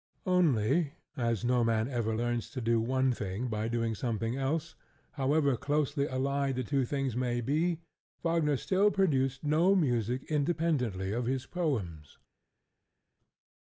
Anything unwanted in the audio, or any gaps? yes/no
no